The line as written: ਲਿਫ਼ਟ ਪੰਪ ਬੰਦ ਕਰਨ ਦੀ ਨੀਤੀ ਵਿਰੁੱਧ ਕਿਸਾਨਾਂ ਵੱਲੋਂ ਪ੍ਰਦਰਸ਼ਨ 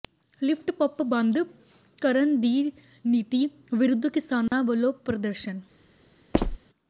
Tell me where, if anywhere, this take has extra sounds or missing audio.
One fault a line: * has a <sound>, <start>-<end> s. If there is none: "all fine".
* has a dropout, 4.5-4.5 s
* has a squeak, 6.3-6.6 s